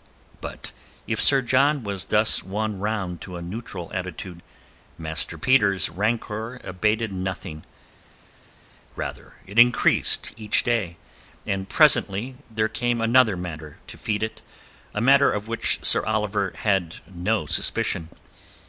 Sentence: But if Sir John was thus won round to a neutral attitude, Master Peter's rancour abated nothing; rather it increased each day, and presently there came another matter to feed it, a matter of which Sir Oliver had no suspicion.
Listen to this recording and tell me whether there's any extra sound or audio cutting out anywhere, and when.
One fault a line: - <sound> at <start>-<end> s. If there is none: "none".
none